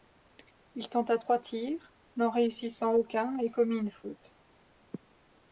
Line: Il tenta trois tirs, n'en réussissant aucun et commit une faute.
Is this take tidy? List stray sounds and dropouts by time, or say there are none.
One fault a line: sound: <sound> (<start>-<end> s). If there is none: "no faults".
no faults